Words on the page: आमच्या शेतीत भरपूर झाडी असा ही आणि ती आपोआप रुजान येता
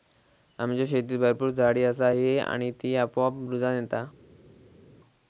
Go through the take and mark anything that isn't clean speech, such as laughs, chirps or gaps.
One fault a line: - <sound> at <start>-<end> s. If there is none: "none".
none